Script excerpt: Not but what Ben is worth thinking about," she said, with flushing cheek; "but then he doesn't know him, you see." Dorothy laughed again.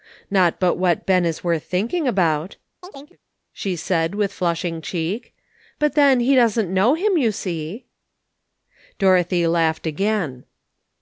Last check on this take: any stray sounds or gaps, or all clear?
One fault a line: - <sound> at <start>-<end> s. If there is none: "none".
- chirp at 2.8-3.2 s